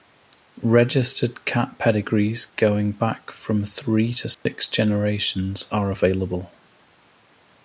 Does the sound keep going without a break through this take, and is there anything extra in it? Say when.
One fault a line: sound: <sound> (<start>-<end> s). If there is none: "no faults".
sound: dropout (4.3-4.5 s)